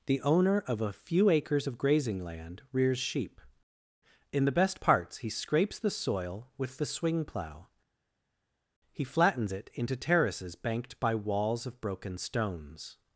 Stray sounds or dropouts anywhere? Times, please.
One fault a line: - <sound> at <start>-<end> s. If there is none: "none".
none